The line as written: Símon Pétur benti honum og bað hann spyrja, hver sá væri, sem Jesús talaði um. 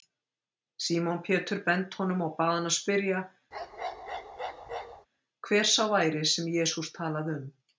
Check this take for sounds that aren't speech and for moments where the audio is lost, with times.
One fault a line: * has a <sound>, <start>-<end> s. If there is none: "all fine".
* has a bark, 3.5-5.1 s